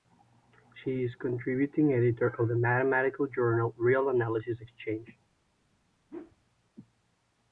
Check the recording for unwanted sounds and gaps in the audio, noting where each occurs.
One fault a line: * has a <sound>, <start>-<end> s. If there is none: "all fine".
* has a whoosh, 6.1-6.4 s